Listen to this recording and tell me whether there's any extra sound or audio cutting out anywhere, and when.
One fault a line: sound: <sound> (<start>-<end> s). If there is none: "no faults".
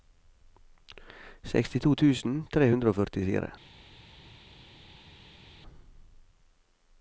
no faults